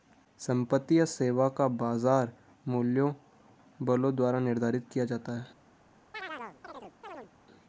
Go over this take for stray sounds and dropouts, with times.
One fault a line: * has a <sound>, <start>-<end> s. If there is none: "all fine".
* has a chirp, 6.1-7.3 s